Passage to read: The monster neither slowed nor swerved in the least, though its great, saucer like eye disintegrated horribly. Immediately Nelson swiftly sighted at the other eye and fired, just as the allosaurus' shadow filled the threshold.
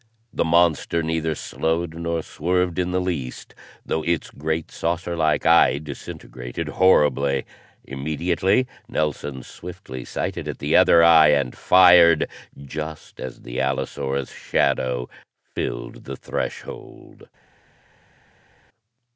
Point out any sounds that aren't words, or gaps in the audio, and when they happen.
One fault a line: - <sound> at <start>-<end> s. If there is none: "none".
none